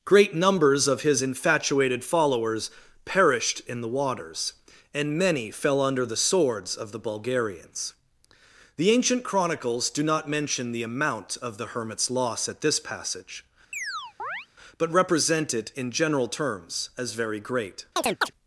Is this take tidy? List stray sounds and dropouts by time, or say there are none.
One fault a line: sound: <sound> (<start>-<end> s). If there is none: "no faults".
sound: chirp (13.7-14.5 s)
sound: chirp (18.0-18.3 s)